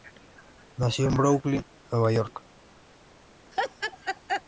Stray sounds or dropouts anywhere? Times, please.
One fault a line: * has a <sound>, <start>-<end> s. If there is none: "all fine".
* has a laugh, 3.5-4.4 s